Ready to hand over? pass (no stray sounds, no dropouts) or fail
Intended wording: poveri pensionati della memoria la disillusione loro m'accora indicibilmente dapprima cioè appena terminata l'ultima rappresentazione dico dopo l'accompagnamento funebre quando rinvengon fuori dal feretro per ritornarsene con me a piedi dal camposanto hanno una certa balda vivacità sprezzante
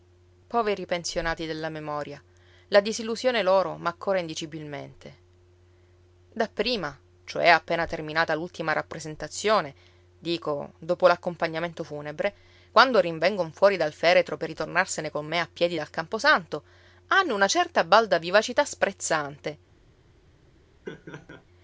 fail